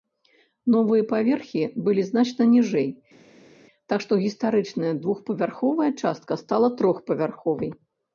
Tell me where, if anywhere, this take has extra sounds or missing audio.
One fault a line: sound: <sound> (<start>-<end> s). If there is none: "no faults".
no faults